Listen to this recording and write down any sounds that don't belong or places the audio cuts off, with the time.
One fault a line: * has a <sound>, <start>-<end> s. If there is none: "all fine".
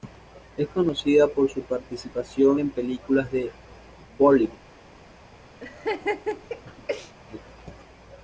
* has a laugh, 5.6-7.1 s